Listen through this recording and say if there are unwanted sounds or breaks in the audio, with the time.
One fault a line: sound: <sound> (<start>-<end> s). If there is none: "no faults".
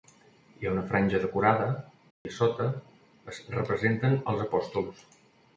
sound: dropout (2.1-2.3 s)